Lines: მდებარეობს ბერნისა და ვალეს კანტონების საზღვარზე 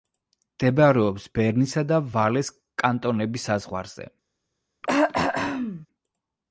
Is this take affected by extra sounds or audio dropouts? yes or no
yes